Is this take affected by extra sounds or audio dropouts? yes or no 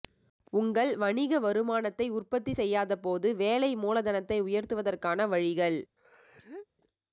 yes